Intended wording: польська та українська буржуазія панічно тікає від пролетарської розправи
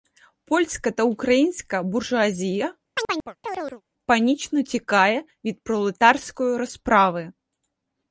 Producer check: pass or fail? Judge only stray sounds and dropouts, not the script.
fail